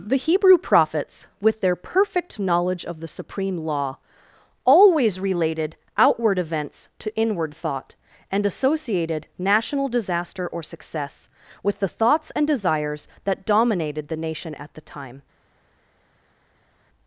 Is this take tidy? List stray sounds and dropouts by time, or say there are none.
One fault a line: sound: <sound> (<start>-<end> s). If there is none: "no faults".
no faults